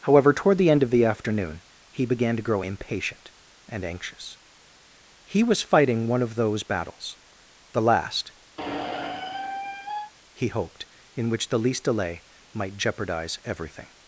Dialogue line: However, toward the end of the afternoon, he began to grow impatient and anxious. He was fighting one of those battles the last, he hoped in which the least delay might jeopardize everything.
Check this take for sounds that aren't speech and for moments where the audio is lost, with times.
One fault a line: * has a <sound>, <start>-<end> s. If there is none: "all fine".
* has a squeak, 8.6-10.1 s